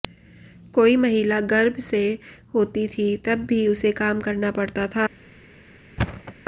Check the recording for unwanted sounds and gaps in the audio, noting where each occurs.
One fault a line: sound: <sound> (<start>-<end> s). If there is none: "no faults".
sound: thud (6.0-6.3 s)